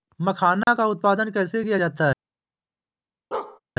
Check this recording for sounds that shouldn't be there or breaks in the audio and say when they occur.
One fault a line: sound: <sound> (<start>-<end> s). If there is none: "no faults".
sound: dropout (0.6-0.7 s)
sound: bark (3.3-3.6 s)